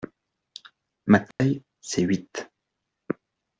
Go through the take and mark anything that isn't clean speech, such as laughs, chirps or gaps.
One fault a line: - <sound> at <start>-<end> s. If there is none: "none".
- dropout at 1.3-1.4 s